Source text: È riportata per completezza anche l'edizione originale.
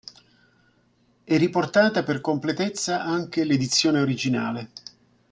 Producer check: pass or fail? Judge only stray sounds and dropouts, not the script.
pass